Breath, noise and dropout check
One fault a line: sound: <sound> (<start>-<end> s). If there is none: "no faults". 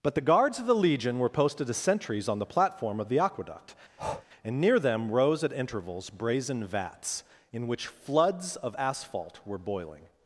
sound: breath (4.0-4.3 s)